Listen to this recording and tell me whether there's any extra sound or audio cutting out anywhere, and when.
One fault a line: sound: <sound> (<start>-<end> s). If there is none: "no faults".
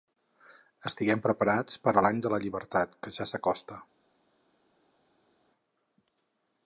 no faults